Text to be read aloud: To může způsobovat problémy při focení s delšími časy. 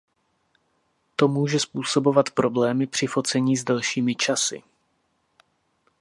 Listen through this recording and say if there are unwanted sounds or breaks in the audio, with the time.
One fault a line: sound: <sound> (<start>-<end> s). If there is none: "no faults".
no faults